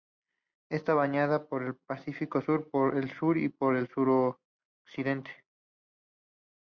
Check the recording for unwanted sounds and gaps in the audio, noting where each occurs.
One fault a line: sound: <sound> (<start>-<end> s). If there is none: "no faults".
no faults